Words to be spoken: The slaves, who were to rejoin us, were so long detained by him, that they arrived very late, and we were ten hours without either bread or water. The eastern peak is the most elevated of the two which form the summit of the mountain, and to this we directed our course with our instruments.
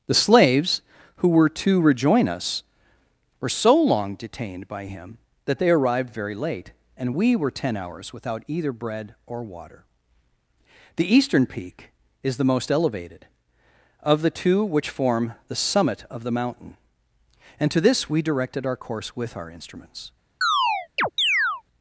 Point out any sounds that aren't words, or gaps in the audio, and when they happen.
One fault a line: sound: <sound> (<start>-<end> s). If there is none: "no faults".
sound: chirp (20.4-21.6 s)